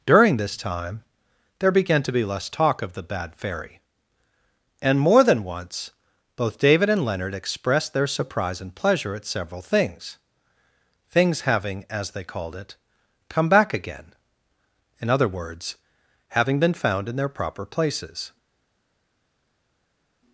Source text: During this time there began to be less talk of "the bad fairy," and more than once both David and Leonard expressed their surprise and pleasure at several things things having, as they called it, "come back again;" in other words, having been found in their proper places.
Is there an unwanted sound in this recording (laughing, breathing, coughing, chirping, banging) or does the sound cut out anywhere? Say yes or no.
no